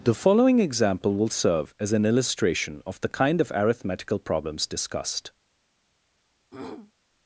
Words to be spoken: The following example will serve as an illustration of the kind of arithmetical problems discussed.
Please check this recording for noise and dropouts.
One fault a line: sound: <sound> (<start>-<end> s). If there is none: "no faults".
sound: throat clearing (6.5-6.9 s)